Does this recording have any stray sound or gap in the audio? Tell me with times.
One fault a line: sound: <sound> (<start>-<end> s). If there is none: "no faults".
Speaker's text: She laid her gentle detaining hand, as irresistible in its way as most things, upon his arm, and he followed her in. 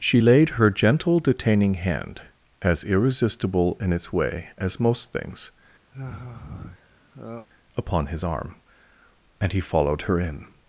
sound: sigh (5.9-7.5 s)